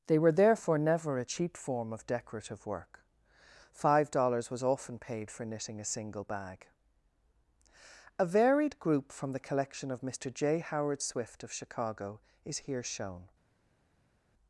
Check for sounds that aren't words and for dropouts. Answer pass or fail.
pass